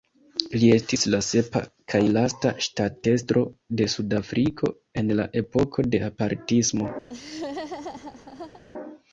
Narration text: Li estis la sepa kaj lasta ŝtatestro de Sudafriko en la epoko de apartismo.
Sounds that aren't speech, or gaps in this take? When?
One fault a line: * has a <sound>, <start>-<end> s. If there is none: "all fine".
* has a laugh, 7.1-8.6 s